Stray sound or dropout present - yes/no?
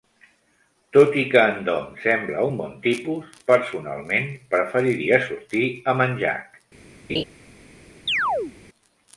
yes